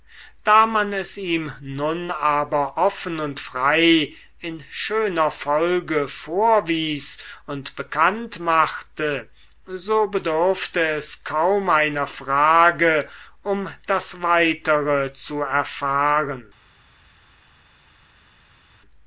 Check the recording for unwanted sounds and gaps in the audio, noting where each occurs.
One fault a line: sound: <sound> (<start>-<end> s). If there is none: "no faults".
no faults